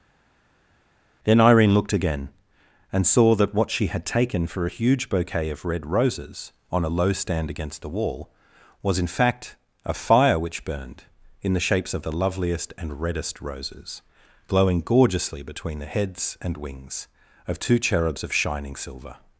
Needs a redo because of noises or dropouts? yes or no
no